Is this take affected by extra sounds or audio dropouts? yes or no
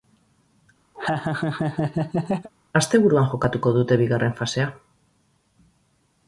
yes